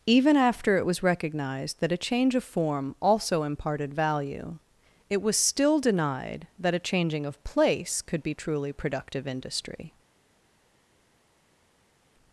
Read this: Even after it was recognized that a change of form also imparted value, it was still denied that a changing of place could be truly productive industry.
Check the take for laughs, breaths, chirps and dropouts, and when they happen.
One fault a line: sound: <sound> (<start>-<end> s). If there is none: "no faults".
no faults